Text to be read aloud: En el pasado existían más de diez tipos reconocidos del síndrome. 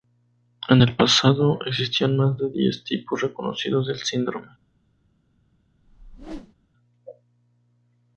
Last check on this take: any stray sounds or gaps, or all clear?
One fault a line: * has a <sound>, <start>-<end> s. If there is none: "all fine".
* has a whoosh, 5.8-6.5 s